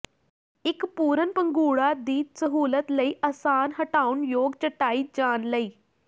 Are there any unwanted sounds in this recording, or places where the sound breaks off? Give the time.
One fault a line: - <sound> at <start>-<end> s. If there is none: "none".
none